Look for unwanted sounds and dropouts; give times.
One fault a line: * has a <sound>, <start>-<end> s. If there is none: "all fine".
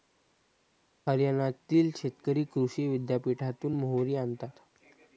all fine